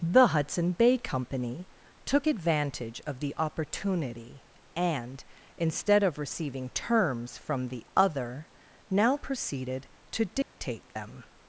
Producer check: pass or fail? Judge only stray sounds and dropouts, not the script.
fail